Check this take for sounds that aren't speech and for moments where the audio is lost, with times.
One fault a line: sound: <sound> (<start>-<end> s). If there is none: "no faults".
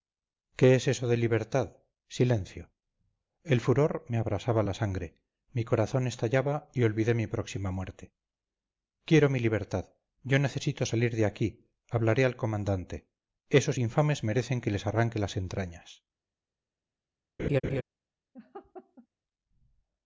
sound: laugh (17.4-17.8 s)
sound: laugh (18.3-19.1 s)